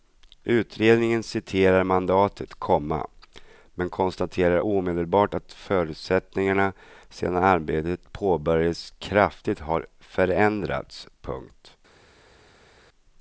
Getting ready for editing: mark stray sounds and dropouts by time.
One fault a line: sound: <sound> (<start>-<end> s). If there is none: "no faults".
no faults